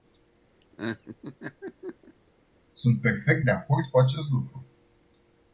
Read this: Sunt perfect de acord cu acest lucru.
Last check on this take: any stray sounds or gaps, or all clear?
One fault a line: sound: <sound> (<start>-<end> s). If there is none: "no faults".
sound: laugh (0.6-2.1 s)